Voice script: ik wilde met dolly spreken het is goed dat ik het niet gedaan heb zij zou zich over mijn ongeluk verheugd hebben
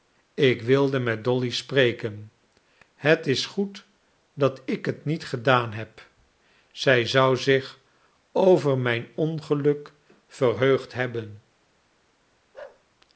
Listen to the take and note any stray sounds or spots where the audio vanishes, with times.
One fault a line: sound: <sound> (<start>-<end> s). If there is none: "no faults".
sound: bark (12.5-12.8 s)